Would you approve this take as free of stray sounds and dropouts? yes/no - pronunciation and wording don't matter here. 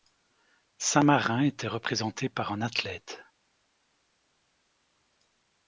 yes